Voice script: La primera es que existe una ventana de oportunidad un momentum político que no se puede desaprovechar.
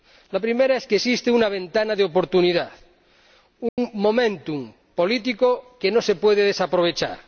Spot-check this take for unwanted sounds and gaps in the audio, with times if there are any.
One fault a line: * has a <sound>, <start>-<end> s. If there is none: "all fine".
* has a dropout, 3.7-3.8 s